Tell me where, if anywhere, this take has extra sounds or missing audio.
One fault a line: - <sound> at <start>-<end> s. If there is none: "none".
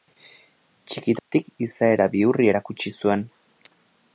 - dropout at 1.2-1.3 s